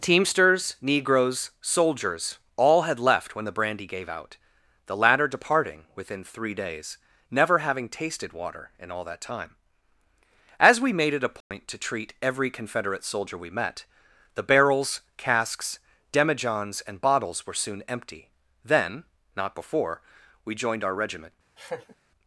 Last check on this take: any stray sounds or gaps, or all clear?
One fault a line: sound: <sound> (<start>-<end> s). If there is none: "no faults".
sound: dropout (11.4-11.5 s)
sound: laugh (21.6-22.0 s)